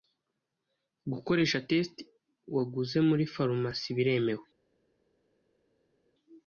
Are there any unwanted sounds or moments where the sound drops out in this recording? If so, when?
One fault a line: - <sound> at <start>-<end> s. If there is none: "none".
none